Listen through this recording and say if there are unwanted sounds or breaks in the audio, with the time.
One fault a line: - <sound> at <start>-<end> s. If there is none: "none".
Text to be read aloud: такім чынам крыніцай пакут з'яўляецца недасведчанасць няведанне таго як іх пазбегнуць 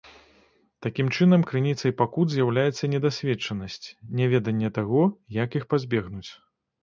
none